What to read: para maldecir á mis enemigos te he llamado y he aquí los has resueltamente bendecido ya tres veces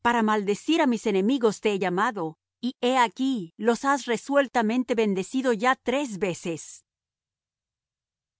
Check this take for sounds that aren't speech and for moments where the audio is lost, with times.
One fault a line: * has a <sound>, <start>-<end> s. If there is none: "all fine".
all fine